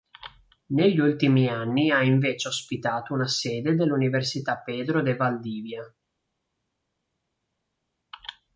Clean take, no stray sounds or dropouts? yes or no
yes